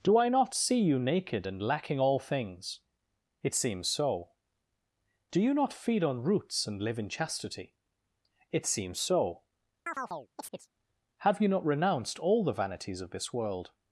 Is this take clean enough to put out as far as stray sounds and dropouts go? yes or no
no